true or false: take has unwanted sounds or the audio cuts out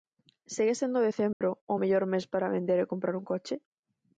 true